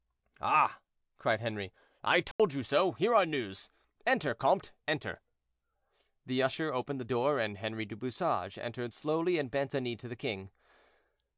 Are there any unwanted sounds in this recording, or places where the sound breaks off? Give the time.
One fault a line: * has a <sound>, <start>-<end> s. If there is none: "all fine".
* has a dropout, 2.3-2.4 s